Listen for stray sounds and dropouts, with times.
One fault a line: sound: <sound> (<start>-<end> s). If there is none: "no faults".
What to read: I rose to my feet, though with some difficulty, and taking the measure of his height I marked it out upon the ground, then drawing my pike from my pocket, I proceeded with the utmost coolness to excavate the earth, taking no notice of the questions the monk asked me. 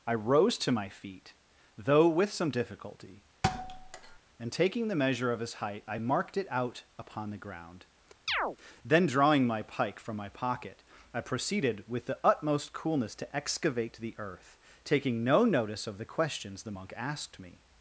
sound: thud (3.4-4.2 s)
sound: chirp (8.3-8.6 s)